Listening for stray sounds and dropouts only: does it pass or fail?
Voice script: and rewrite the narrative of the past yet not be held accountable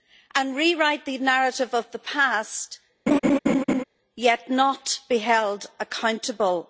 fail